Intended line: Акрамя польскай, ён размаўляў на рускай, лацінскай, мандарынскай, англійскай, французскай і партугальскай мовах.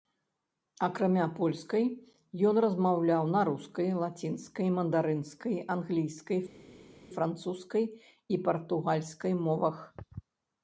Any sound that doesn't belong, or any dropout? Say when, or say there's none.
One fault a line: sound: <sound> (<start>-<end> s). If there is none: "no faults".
no faults